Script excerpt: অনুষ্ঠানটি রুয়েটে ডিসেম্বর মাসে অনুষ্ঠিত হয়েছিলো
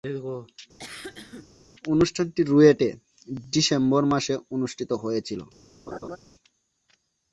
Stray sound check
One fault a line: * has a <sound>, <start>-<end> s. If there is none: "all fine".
* has a cough, 0.8-1.5 s
* has a laugh, 5.9-6.2 s